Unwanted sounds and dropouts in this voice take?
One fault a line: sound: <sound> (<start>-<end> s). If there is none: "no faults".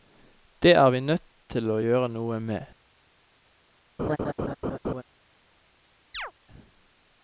sound: laugh (4.0-5.0 s)
sound: chirp (6.1-6.3 s)